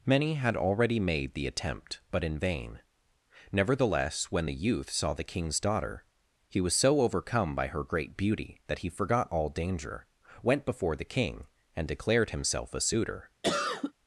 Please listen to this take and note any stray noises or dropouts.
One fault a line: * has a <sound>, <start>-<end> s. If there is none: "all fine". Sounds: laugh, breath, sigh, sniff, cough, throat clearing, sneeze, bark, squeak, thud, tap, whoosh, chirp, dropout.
* has a cough, 13.4-13.9 s